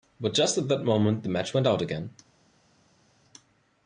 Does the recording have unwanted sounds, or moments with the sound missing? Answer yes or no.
no